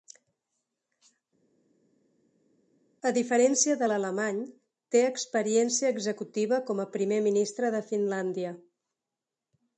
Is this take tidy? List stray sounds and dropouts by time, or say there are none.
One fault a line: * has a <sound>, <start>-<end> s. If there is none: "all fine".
all fine